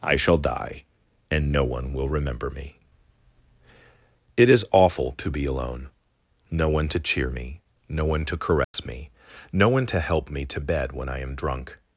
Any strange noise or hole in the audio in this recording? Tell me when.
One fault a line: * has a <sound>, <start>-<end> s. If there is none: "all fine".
* has a dropout, 8.6-8.7 s